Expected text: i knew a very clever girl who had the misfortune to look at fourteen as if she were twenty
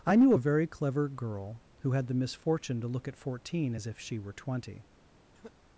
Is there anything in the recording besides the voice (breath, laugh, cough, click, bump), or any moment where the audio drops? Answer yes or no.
yes